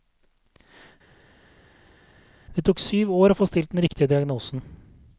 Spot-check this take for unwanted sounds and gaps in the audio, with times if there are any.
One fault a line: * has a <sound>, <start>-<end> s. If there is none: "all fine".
all fine